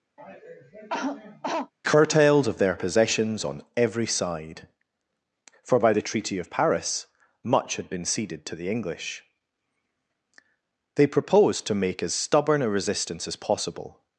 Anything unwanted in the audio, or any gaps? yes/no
yes